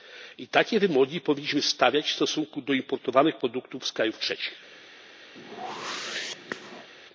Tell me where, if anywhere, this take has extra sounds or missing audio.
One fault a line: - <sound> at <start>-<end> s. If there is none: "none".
- whoosh at 5.4-6.9 s